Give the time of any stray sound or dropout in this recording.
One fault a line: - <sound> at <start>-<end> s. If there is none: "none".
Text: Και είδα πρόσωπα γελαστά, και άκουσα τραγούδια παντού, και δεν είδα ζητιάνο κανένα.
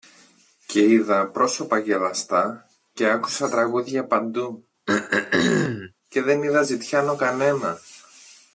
- throat clearing at 4.9-5.9 s